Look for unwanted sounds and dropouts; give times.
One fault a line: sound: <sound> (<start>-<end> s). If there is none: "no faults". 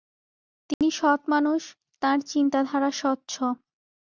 sound: dropout (0.7-0.8 s)